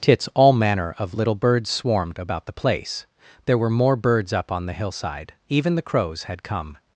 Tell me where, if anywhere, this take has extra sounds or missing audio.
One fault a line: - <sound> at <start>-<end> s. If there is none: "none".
none